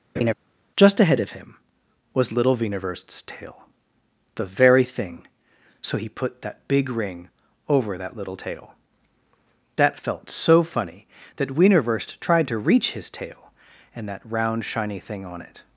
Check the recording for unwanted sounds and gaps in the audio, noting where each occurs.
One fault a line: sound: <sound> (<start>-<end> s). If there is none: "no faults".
sound: laugh (0.2-0.3 s)